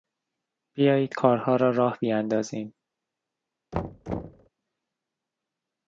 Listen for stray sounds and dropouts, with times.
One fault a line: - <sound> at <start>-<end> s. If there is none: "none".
- thud at 3.7-4.5 s